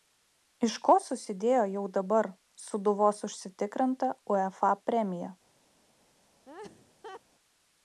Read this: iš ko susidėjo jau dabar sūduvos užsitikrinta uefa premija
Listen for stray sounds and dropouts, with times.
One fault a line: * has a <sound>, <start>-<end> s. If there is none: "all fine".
* has a laugh, 6.5-7.2 s